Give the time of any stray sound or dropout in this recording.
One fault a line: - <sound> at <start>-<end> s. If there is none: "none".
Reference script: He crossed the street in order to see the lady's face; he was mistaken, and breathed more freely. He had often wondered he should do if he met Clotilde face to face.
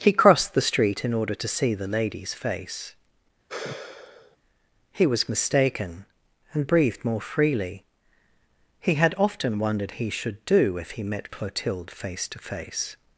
- sigh at 3.5-4.4 s